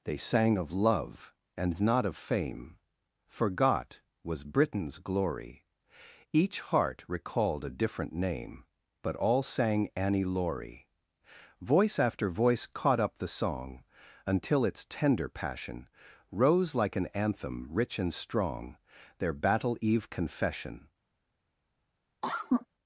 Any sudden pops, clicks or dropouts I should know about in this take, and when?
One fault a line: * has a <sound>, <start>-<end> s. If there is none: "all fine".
* has a cough, 22.2-22.7 s